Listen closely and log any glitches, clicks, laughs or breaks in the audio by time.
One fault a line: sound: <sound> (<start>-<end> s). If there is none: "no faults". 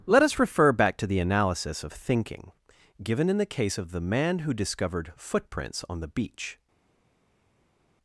no faults